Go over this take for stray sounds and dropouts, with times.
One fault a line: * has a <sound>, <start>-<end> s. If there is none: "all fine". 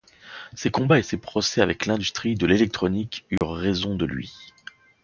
* has a dropout, 3.4-3.4 s